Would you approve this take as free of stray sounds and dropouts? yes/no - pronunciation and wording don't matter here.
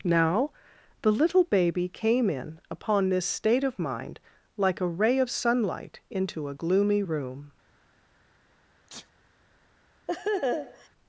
no